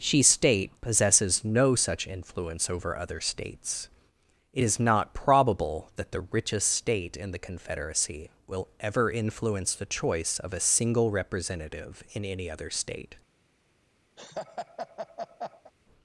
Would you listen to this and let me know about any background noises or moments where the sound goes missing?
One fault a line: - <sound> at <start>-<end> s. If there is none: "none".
- laugh at 14.2-15.7 s